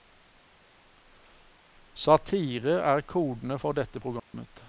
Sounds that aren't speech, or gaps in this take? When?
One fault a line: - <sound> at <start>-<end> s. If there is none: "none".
- dropout at 4.2-4.3 s